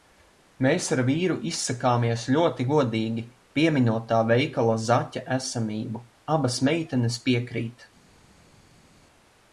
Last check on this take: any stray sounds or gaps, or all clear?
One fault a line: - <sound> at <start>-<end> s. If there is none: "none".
none